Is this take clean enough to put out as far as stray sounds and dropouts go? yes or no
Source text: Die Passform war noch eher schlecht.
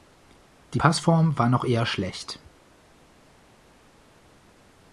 yes